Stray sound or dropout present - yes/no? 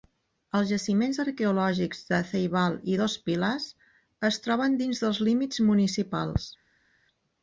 no